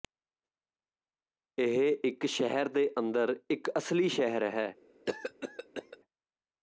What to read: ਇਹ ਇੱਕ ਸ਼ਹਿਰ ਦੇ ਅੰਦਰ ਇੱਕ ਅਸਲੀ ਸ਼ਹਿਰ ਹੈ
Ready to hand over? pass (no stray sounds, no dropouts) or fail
fail